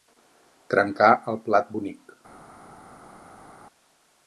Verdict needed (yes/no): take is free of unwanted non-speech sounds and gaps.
yes